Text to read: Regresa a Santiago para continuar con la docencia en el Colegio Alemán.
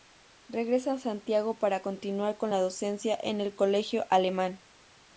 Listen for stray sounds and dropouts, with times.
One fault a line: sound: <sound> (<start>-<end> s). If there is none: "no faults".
no faults